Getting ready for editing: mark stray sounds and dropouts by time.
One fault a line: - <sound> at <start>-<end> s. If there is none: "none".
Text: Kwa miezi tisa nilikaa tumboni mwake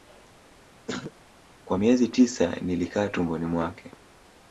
- throat clearing at 0.9-1.1 s